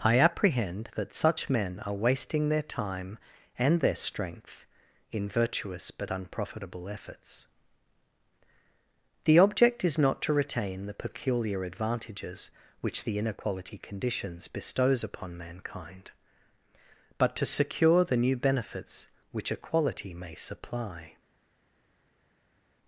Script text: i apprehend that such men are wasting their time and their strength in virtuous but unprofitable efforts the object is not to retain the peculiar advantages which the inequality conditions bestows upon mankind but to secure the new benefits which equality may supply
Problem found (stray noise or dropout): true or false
false